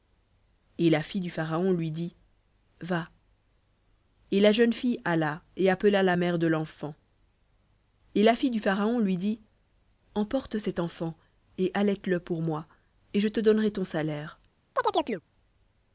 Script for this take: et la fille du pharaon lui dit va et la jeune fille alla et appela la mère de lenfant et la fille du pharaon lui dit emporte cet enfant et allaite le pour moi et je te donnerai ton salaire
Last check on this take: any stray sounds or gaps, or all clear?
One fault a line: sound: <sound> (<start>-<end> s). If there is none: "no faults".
sound: chirp (14.8-15.2 s)